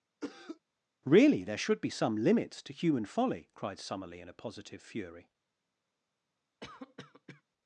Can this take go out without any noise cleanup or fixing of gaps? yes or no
no